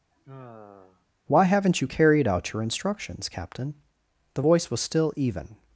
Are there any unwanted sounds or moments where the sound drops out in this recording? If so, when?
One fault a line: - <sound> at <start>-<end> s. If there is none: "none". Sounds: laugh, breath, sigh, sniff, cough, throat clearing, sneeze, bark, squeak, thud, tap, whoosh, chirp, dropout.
- sigh at 0.1-1.1 s